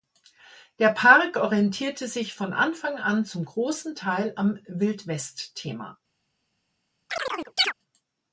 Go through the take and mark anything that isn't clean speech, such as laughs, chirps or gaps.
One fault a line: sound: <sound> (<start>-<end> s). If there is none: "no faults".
sound: chirp (7.1-7.7 s)